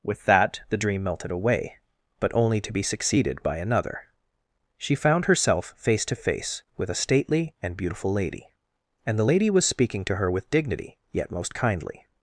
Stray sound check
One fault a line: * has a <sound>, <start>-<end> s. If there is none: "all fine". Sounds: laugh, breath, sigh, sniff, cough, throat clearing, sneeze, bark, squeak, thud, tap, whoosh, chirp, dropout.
all fine